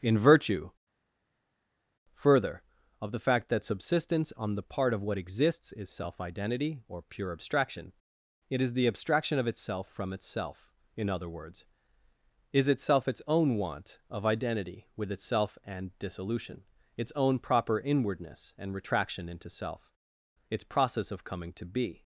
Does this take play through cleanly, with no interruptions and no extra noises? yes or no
yes